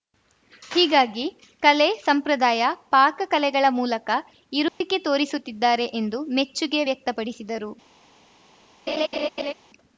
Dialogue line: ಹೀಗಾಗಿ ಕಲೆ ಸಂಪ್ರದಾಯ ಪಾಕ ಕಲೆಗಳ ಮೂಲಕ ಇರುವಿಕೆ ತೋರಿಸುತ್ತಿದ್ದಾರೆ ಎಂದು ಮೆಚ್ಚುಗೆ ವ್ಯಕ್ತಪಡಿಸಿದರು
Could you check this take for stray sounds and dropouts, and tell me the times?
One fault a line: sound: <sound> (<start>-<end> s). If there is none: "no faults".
sound: dropout (4.7-4.8 s)
sound: laugh (8.9-9.5 s)